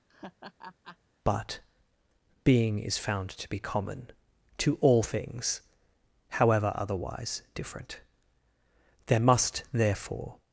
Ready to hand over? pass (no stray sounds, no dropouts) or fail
fail